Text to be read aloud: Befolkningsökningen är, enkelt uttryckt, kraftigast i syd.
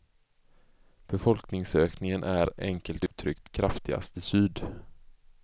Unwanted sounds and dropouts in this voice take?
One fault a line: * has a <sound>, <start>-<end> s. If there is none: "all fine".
* has a dropout, 3.1-3.1 s